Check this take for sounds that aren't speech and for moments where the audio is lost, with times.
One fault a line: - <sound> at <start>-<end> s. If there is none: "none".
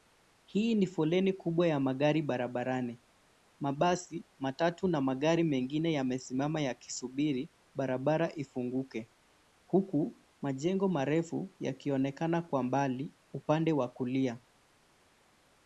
none